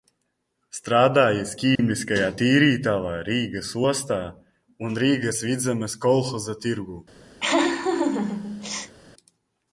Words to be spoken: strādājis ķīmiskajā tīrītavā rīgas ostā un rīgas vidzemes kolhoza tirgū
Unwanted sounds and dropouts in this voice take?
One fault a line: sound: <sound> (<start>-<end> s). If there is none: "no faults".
sound: dropout (1.8-1.8 s)
sound: laugh (7.4-8.9 s)